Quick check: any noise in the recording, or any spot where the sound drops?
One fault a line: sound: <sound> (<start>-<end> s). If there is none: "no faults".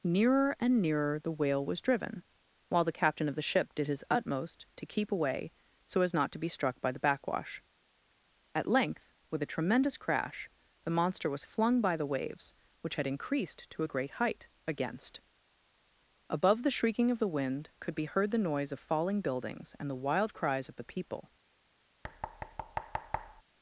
sound: thud (22.0-23.4 s)